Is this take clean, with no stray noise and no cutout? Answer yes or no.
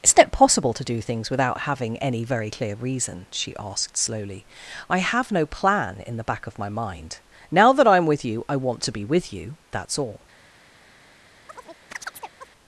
no